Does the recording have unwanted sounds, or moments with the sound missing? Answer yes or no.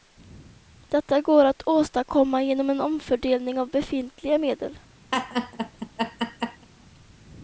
yes